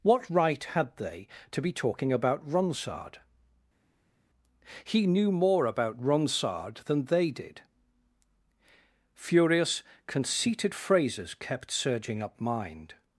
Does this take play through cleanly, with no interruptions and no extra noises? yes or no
yes